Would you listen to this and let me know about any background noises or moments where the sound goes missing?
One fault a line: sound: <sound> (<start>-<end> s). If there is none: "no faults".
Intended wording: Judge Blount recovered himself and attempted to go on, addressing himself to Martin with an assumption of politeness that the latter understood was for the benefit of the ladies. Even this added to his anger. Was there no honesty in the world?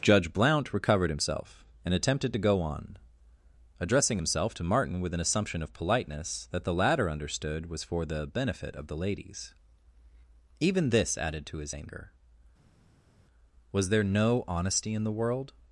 no faults